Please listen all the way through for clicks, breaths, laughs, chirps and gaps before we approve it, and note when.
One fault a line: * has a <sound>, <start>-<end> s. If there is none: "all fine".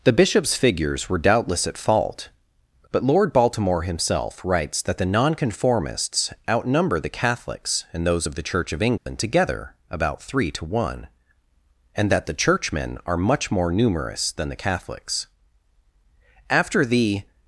* has a dropout, 9.0-9.1 s